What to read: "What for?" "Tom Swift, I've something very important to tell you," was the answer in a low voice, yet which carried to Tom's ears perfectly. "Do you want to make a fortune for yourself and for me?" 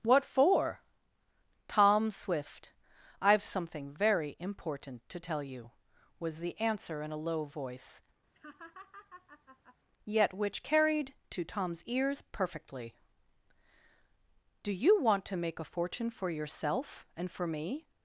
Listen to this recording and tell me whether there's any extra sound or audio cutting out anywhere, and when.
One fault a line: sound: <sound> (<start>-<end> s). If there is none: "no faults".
sound: laugh (8.3-9.8 s)